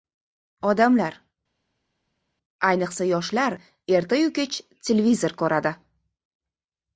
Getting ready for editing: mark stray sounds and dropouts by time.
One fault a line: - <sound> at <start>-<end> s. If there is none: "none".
none